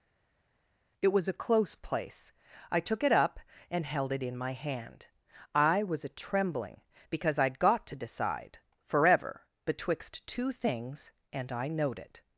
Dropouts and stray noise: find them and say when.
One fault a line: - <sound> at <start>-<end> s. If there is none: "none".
none